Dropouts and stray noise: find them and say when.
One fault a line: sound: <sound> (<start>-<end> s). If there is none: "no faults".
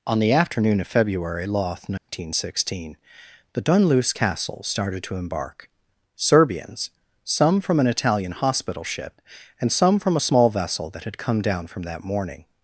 sound: dropout (2.0-2.1 s)